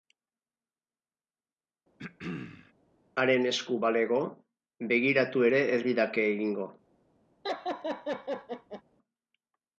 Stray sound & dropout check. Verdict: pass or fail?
fail